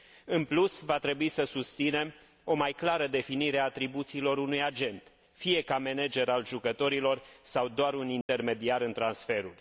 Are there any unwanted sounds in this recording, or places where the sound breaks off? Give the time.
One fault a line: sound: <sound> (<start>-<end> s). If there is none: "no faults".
sound: dropout (8.2-8.3 s)